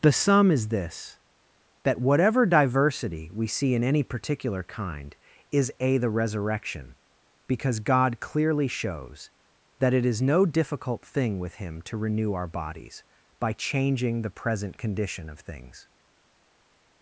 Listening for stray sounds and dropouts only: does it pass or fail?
pass